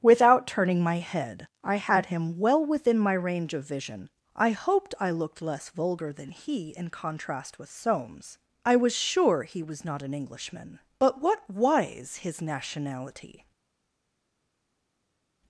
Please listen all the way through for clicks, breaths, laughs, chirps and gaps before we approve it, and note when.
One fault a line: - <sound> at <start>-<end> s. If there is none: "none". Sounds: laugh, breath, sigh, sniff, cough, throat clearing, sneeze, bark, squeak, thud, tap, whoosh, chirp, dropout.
none